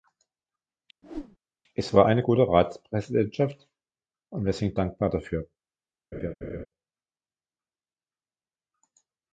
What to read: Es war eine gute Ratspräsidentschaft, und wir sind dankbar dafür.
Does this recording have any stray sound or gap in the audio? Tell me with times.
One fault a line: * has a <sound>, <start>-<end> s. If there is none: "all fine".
* has a whoosh, 1.0-1.4 s
* has a laugh, 6.1-6.7 s